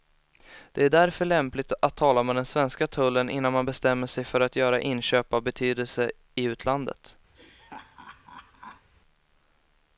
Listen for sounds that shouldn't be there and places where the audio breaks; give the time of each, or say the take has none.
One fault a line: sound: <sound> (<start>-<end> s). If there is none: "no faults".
sound: laugh (7.3-8.9 s)